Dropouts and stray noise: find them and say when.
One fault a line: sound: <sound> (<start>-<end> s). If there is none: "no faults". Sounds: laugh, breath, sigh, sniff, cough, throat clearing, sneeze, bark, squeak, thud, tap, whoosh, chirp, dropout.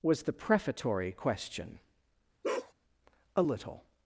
sound: bark (2.4-2.7 s)